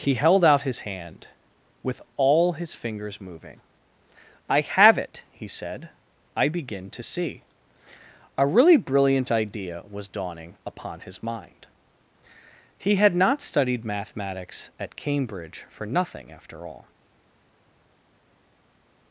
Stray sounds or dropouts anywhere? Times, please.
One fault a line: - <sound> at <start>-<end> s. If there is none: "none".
none